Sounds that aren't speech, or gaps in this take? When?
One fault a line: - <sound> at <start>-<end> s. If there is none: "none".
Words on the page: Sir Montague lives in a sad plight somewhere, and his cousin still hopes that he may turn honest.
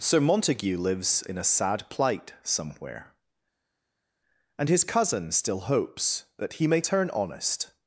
none